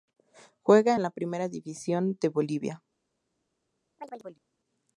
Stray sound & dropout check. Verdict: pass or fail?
fail